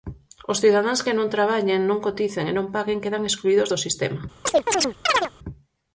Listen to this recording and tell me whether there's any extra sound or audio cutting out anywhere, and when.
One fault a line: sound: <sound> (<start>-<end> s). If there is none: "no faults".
sound: chirp (4.5-5.3 s)